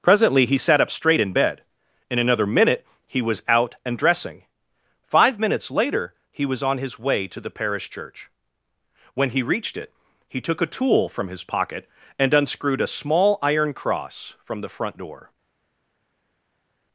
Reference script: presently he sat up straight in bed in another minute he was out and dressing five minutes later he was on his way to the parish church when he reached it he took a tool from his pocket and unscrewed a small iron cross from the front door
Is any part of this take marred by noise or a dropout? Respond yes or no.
no